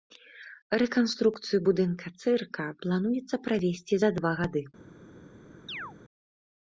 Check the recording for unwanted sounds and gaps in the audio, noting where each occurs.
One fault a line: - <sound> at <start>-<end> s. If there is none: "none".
- chirp at 5.7-5.9 s